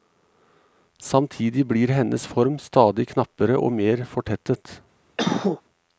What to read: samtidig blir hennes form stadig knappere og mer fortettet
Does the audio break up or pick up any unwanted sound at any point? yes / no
yes